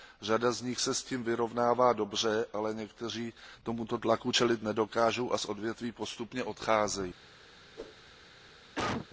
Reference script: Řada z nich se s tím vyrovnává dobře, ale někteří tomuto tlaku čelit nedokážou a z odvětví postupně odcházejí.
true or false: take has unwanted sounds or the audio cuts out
true